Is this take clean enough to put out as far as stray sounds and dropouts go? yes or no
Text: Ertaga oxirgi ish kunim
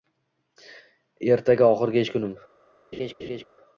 no